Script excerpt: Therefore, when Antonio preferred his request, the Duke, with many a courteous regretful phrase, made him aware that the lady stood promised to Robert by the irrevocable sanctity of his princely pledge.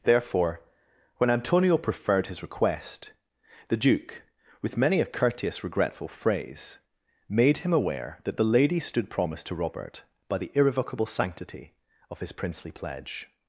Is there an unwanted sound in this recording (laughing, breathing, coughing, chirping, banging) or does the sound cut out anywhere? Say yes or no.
no